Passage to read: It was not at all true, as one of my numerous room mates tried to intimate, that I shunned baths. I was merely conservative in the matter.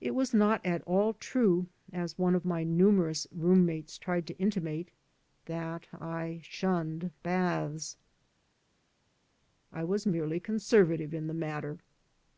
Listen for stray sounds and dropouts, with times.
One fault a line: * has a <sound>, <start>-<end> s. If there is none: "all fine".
all fine